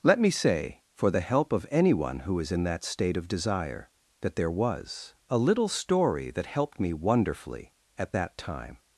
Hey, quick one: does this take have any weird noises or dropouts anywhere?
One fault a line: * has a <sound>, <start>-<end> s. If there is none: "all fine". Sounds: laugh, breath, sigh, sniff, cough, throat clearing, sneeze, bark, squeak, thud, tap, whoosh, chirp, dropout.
all fine